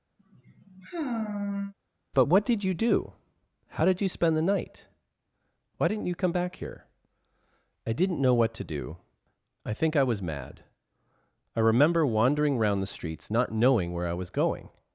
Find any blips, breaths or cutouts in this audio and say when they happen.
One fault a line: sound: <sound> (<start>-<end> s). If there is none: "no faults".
sound: sigh (0.2-1.7 s)